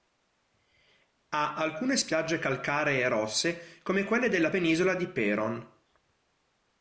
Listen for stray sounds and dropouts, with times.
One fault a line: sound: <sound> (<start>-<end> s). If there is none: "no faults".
no faults